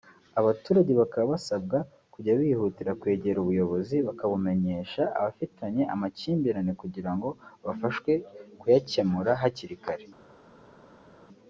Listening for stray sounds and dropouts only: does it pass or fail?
pass